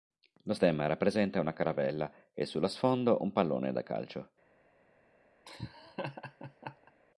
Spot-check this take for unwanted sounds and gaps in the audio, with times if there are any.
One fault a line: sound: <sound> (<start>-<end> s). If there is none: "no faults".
sound: laugh (5.5-6.9 s)